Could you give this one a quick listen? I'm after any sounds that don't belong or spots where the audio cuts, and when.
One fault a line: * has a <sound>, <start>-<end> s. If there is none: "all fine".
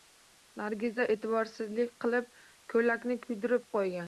all fine